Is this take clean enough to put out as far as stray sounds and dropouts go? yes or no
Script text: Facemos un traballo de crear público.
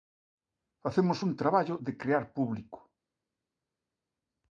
yes